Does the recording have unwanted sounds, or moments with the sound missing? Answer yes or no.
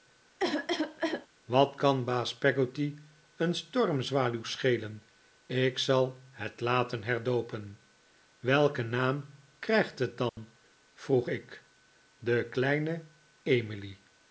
yes